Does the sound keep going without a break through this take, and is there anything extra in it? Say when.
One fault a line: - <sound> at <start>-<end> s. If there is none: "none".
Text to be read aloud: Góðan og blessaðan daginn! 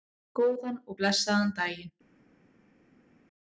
none